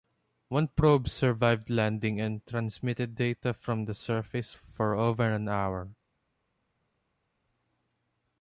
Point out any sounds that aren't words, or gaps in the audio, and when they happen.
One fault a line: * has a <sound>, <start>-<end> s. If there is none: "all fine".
all fine